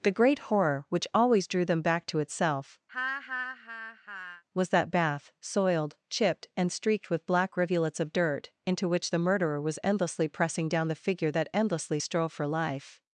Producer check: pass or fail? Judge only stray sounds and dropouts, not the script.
fail